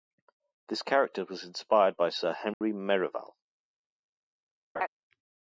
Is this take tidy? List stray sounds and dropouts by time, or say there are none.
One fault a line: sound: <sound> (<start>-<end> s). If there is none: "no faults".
sound: dropout (2.5-2.6 s)
sound: laugh (4.8-4.9 s)